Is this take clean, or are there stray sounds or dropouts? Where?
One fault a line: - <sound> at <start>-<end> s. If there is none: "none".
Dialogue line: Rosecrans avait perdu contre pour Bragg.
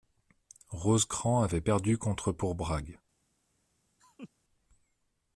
- laugh at 4.0-4.3 s